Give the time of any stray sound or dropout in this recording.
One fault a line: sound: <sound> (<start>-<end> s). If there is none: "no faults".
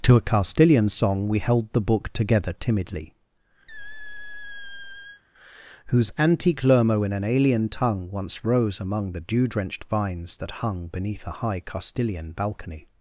sound: squeak (3.7-5.2 s)